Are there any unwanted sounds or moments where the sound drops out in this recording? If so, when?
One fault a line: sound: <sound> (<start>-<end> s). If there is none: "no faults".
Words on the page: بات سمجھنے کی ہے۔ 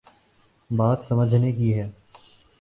no faults